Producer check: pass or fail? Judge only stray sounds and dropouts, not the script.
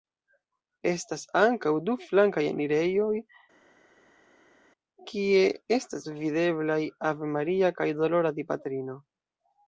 pass